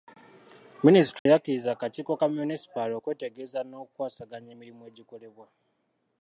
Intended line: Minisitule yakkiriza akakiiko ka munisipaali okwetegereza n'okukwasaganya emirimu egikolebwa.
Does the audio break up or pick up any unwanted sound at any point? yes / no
yes